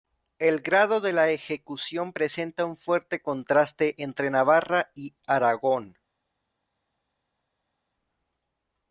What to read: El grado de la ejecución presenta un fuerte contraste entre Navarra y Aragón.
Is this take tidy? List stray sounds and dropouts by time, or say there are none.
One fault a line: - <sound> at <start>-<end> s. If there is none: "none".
none